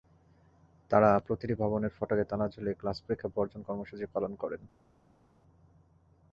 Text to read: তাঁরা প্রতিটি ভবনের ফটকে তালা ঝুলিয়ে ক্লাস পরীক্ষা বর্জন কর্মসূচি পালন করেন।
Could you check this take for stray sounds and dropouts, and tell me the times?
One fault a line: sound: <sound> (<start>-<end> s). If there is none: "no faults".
no faults